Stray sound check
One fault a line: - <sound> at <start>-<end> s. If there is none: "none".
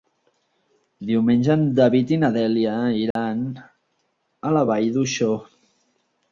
- dropout at 3.1-3.2 s